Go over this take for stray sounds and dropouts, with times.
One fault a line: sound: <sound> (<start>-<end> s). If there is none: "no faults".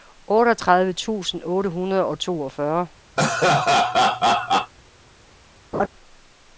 sound: laugh (3.2-4.7 s)
sound: laugh (5.7-5.9 s)